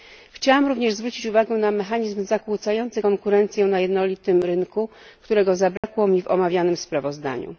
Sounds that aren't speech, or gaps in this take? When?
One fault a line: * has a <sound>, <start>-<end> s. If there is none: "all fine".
* has a dropout, 5.8-5.8 s